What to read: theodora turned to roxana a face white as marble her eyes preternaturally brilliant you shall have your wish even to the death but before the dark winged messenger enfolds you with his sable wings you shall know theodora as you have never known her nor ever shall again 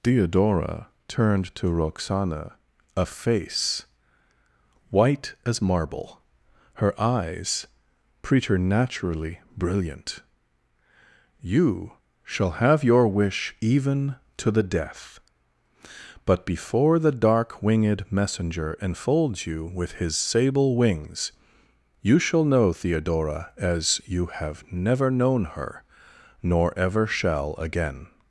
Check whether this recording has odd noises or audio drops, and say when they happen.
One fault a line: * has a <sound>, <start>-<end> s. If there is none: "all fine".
all fine